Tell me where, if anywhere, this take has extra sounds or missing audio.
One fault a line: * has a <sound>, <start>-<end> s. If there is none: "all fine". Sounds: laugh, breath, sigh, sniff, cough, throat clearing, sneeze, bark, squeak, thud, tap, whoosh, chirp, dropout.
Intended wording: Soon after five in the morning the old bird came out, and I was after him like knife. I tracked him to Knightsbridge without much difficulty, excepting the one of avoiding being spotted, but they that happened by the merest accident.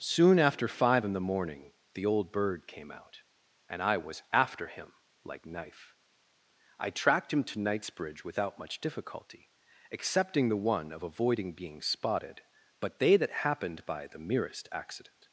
all fine